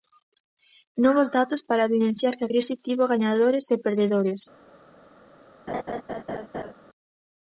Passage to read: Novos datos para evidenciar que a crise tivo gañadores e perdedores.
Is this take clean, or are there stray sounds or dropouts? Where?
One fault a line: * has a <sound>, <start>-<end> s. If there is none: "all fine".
* has a laugh, 5.7-6.7 s